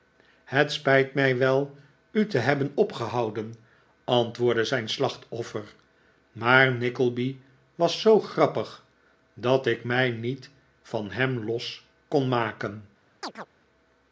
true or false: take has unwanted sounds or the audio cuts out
true